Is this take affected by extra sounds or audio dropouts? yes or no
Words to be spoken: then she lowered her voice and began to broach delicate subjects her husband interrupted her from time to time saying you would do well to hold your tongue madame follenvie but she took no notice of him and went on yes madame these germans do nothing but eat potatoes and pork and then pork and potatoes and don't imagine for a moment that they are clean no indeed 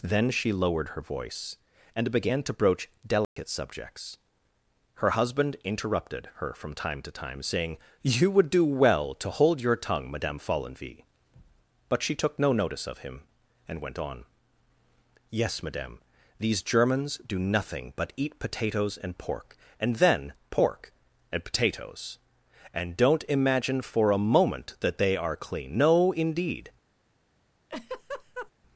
yes